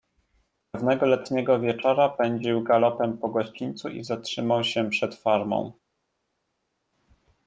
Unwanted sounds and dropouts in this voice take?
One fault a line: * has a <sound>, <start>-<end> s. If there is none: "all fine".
all fine